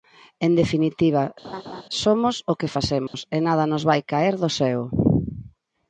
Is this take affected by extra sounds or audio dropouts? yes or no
yes